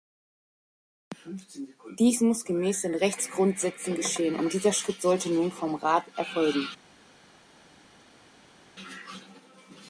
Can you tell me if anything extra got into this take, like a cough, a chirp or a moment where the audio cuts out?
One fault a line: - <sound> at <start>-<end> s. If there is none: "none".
none